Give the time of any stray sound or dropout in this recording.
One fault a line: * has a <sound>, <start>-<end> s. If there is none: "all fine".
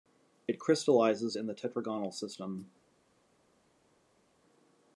all fine